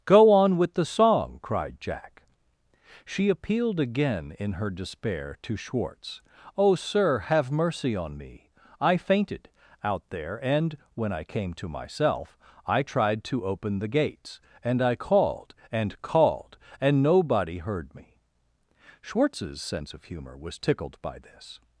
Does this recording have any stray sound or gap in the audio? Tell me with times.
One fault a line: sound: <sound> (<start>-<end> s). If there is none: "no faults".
no faults